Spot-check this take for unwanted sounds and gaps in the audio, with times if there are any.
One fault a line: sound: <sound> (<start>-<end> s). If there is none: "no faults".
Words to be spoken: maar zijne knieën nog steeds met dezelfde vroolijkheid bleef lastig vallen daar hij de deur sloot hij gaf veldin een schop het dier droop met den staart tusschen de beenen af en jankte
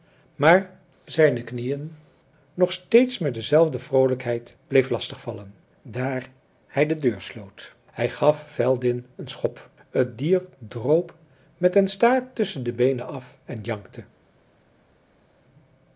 no faults